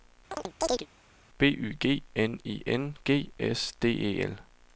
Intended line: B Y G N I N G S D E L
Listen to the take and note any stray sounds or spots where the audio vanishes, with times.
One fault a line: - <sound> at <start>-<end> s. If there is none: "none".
- chirp at 0.3-0.9 s